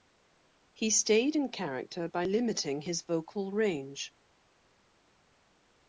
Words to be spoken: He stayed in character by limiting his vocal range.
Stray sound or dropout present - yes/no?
no